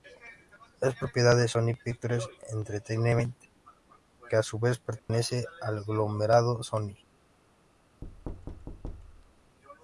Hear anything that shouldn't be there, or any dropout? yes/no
yes